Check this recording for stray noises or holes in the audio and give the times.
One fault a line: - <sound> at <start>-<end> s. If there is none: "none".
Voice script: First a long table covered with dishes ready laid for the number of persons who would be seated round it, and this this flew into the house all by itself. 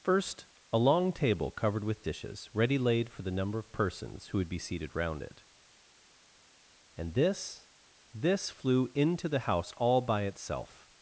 none